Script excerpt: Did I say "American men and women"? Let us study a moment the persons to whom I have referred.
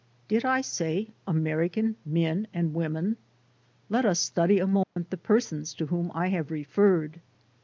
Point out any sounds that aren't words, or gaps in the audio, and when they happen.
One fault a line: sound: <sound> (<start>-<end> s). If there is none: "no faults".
sound: dropout (4.8-5.0 s)